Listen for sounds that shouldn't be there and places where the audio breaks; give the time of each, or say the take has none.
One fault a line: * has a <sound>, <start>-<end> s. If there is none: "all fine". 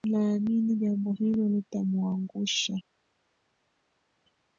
all fine